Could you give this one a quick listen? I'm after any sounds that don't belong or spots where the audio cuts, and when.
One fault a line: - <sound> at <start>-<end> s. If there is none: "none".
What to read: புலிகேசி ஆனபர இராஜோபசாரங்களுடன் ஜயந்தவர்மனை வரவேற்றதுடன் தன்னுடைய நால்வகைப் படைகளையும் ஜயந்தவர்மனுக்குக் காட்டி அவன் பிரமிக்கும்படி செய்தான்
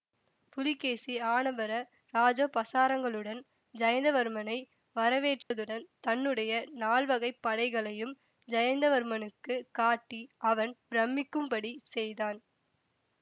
- dropout at 5.4-5.5 s